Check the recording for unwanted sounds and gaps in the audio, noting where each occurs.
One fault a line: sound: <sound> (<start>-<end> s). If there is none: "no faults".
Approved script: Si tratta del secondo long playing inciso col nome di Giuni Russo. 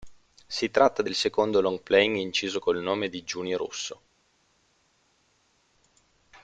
no faults